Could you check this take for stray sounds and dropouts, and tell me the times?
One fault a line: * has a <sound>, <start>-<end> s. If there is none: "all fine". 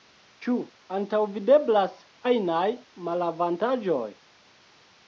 all fine